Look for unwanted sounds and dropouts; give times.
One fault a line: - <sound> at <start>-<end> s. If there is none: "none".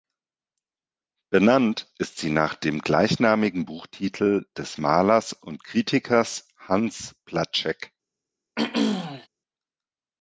- throat clearing at 8.6-9.3 s